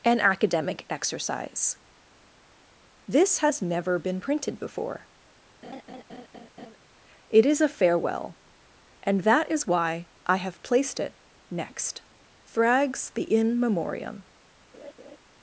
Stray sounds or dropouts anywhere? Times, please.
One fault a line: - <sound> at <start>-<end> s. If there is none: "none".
- laugh at 5.6-6.8 s
- laugh at 14.7-15.2 s